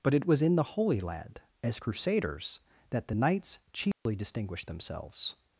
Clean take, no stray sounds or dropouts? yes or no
no